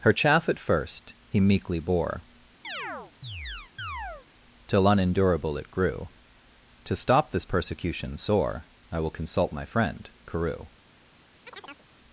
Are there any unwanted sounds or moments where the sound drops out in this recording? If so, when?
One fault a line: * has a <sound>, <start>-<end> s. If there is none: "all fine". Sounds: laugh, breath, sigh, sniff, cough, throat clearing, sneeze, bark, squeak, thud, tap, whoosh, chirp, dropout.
* has a chirp, 2.6-4.3 s
* has a chirp, 11.5-11.9 s